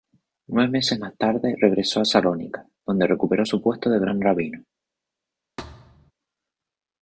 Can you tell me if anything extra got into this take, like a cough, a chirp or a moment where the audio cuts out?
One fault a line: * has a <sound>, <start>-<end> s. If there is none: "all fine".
* has a thud, 5.6-6.1 s